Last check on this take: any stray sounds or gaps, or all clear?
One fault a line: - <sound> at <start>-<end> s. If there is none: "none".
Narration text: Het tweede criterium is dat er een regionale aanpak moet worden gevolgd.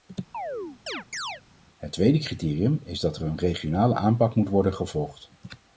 - chirp at 0.3-1.4 s